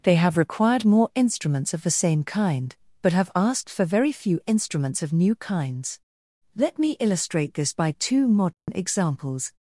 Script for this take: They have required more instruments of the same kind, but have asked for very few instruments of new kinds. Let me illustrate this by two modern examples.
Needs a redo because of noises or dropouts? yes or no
yes